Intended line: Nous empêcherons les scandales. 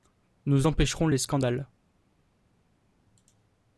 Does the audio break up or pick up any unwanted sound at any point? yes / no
no